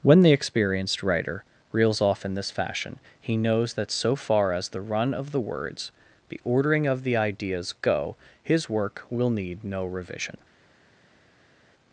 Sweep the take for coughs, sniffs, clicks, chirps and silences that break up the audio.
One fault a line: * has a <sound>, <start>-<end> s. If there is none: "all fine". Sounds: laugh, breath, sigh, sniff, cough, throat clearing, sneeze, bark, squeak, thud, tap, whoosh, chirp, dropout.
all fine